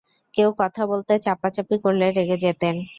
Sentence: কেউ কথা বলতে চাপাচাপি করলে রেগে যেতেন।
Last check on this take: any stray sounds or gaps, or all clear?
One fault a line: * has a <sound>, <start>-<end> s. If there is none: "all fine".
all fine